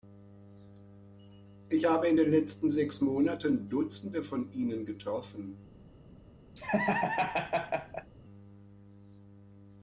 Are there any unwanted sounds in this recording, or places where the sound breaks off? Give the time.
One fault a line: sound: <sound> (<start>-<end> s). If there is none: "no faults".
sound: laugh (6.6-8.1 s)